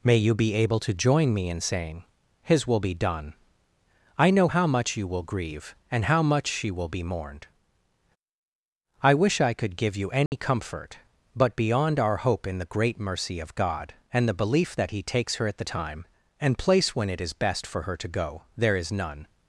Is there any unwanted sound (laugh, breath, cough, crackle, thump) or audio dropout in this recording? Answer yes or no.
yes